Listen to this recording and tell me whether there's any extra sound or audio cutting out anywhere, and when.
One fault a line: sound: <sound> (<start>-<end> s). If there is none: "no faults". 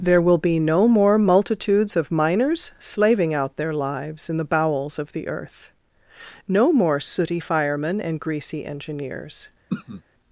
sound: throat clearing (9.7-10.0 s)